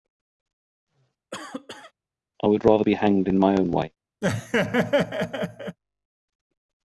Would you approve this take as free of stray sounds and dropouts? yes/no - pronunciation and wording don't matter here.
no